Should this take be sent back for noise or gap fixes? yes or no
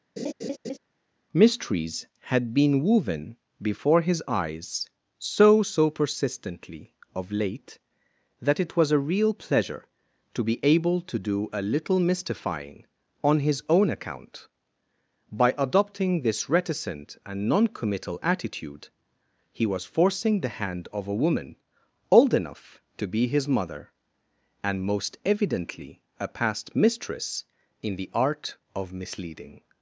yes